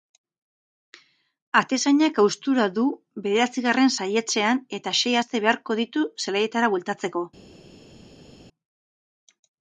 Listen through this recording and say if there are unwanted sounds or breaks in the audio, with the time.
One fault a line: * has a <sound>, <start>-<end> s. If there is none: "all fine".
all fine